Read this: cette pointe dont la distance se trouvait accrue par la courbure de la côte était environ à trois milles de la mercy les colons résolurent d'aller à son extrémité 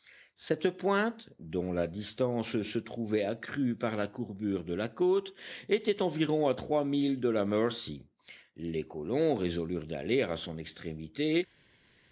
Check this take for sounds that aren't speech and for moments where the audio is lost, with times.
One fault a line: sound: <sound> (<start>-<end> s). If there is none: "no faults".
no faults